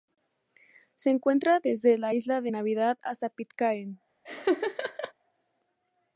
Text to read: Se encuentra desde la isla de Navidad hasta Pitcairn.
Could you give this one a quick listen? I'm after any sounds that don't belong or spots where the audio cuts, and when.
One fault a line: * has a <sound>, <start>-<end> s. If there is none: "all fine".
* has a laugh, 4.2-5.1 s